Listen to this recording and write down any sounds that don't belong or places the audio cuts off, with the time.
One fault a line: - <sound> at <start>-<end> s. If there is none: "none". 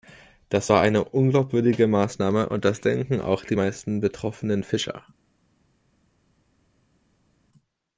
none